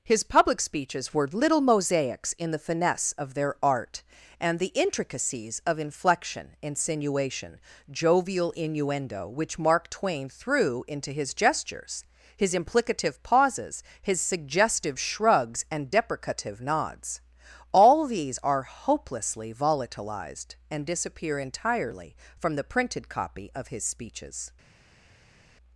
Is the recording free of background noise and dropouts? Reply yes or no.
yes